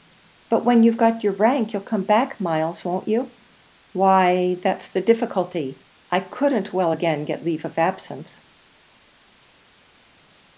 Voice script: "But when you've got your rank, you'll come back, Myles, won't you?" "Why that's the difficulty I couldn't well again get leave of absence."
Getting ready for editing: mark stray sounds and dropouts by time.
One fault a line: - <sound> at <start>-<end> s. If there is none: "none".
none